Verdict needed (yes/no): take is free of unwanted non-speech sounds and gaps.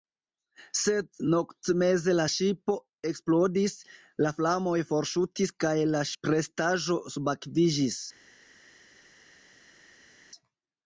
yes